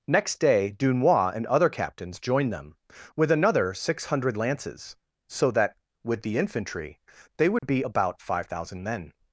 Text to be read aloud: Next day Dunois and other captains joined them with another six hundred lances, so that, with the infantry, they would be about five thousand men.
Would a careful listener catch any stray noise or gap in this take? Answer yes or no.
yes